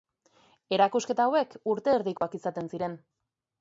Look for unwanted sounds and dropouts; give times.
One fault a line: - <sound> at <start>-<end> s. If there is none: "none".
- dropout at 2.2-2.2 s